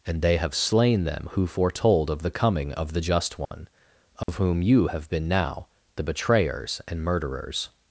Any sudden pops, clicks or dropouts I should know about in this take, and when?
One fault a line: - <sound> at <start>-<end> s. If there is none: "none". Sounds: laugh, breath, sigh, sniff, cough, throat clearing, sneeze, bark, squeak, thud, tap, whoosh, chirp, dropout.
- dropout at 3.5-3.5 s
- dropout at 4.2-4.3 s